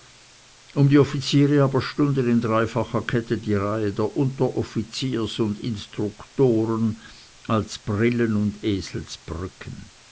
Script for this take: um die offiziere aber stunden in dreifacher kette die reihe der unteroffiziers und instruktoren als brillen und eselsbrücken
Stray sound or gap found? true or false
false